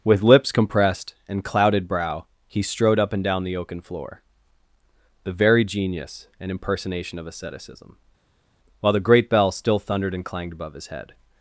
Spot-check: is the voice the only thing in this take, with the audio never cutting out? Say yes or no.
yes